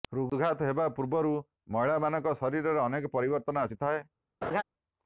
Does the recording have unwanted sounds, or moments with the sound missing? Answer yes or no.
yes